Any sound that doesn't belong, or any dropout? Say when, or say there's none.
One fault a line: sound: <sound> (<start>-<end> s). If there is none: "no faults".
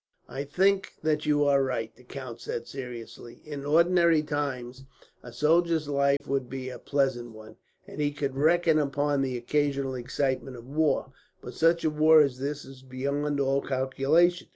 sound: dropout (6.2-6.2 s)